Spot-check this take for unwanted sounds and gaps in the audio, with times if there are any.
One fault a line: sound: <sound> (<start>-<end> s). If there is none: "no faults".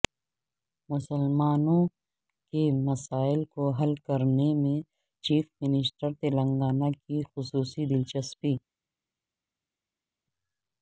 no faults